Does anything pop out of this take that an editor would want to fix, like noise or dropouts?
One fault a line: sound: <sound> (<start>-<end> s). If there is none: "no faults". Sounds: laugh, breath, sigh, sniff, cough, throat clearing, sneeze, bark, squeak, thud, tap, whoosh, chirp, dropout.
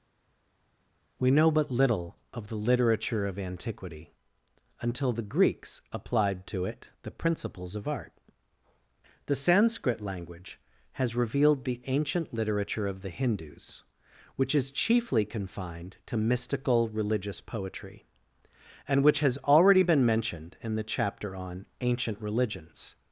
no faults